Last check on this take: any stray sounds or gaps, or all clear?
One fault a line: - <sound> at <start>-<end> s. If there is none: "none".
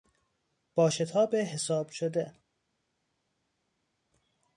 none